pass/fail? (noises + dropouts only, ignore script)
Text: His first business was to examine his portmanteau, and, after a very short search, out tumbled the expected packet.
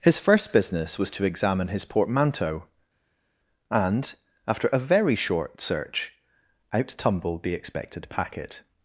pass